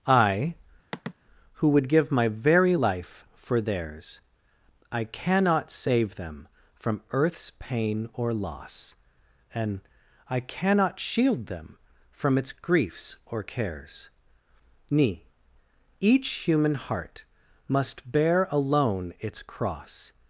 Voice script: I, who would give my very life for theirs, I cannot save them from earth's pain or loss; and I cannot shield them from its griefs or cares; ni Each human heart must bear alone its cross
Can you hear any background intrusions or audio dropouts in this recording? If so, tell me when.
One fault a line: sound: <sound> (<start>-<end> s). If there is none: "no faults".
sound: sigh (0.9-1.1 s)